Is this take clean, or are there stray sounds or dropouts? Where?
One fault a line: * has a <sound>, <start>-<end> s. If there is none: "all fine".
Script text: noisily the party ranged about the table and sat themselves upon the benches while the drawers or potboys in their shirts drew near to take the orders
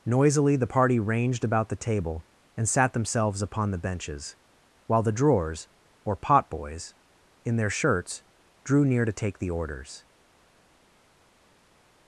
all fine